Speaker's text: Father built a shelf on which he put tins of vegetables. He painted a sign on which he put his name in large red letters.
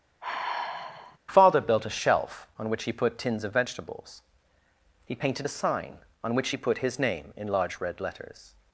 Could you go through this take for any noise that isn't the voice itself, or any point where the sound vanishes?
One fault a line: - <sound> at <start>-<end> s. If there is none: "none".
- sigh at 0.2-1.2 s